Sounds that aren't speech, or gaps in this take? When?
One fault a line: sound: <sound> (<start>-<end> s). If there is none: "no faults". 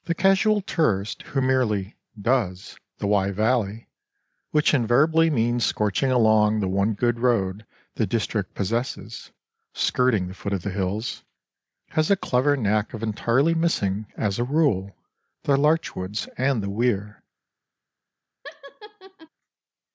sound: laugh (18.4-19.3 s)